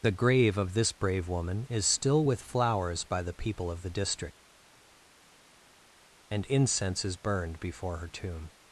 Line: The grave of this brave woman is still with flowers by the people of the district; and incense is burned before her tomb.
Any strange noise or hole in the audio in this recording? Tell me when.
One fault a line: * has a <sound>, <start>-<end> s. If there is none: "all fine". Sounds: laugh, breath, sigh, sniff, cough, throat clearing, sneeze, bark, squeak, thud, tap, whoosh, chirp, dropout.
all fine